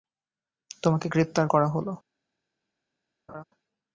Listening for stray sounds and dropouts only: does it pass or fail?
fail